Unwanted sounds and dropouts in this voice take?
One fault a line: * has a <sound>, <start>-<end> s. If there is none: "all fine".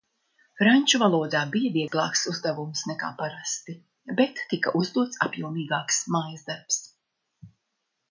* has a dropout, 1.9-1.9 s